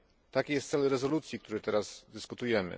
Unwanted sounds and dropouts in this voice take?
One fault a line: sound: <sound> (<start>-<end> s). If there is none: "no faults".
no faults